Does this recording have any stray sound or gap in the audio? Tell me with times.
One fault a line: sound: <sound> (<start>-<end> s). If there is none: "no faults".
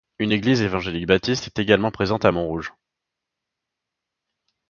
no faults